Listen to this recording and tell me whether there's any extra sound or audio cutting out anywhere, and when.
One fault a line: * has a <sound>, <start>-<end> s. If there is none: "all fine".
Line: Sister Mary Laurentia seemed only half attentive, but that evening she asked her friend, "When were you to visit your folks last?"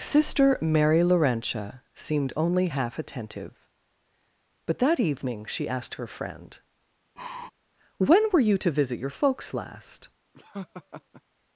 * has a sigh, 7.2-7.5 s
* has a laugh, 10.3-11.2 s